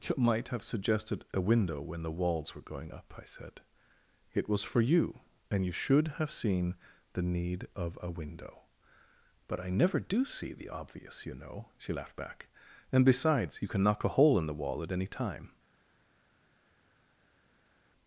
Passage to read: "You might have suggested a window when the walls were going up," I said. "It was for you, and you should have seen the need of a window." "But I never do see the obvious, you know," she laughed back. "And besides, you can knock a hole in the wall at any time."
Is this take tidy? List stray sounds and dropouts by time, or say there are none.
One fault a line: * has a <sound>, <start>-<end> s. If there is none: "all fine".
all fine